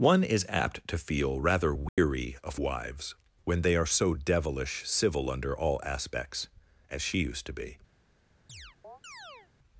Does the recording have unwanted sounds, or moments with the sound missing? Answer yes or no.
yes